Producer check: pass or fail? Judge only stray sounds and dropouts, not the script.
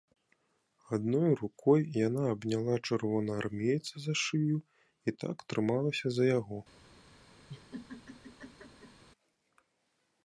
fail